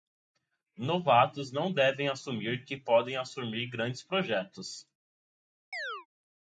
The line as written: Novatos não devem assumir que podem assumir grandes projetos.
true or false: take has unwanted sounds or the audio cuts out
true